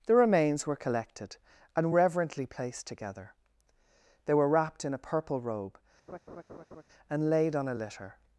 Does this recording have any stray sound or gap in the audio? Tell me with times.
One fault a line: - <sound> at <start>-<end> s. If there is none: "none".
- laugh at 6.1-6.8 s